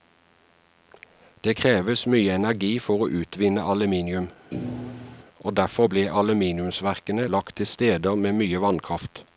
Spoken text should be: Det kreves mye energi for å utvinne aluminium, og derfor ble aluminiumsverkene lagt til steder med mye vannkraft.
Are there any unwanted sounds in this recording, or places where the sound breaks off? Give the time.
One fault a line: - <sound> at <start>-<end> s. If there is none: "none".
- thud at 4.5-5.2 s